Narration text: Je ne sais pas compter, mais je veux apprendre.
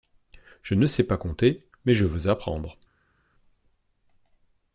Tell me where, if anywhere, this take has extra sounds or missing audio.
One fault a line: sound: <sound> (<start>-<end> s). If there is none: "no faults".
no faults